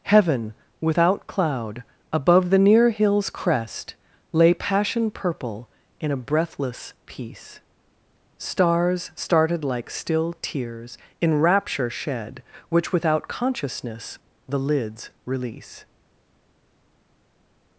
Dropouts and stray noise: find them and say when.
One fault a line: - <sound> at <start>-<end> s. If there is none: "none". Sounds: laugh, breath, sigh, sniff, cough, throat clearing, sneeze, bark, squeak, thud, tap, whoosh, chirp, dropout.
none